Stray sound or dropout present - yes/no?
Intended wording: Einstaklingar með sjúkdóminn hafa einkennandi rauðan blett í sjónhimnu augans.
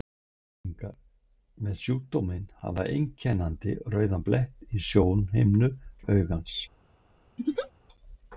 yes